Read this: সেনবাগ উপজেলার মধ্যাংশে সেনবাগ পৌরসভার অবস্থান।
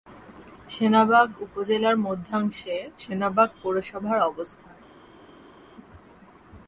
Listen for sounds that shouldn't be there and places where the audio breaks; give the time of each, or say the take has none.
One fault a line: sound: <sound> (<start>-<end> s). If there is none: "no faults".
no faults